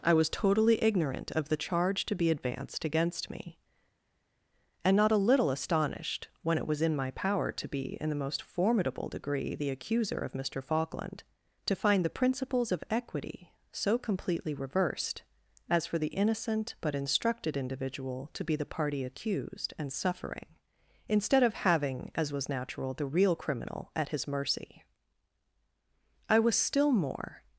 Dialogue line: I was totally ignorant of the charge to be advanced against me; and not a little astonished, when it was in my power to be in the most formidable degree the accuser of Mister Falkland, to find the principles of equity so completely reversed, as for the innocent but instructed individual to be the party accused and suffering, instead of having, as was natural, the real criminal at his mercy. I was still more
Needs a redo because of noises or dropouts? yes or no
no